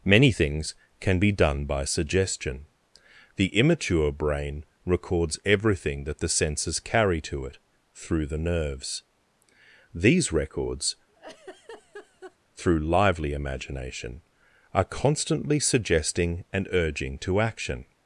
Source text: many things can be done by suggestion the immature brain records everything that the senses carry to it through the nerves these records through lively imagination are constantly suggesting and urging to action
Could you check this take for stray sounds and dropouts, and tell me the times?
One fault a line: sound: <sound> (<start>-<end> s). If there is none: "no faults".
sound: laugh (11.1-12.4 s)